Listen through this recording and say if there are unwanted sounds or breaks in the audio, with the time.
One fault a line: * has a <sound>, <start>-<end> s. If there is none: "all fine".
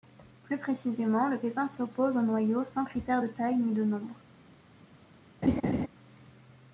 * has a laugh, 5.4-5.9 s